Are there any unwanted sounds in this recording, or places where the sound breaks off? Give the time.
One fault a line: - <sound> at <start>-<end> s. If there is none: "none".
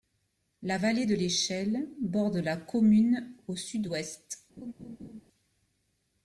- laugh at 4.6-5.2 s